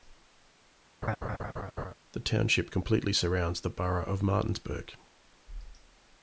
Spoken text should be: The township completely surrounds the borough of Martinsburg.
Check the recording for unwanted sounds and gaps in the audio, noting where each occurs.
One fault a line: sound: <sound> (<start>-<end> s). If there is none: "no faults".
sound: laugh (1.0-1.9 s)